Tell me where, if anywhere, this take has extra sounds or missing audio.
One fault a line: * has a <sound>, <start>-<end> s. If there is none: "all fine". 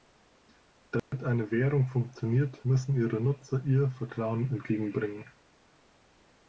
* has a dropout, 1.0-1.1 s